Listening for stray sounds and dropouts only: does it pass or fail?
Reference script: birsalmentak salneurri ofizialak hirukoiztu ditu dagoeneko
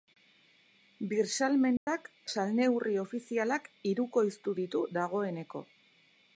fail